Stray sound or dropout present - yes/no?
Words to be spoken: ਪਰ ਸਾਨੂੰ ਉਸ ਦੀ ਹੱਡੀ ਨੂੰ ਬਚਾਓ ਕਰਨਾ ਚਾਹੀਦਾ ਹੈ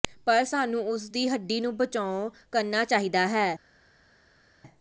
no